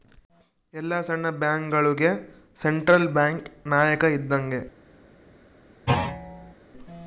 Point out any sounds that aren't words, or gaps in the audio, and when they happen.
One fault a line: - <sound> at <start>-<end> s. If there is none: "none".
- thud at 5.9-6.5 s